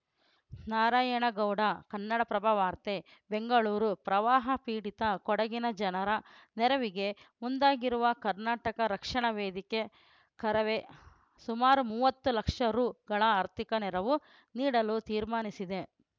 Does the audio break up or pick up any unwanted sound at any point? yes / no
no